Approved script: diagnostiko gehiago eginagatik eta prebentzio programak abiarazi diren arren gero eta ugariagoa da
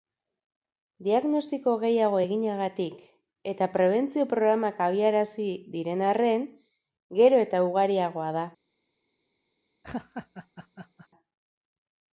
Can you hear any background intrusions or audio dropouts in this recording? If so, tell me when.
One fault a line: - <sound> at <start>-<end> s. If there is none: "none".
- laugh at 9.8-11.1 s